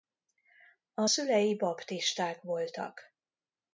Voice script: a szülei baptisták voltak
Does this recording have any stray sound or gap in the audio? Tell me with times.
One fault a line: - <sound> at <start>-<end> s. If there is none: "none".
none